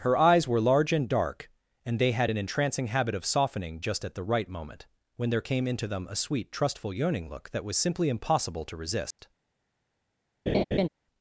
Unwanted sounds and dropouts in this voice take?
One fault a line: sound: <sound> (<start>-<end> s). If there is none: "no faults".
sound: dropout (9.1-9.2 s)
sound: laugh (10.5-10.9 s)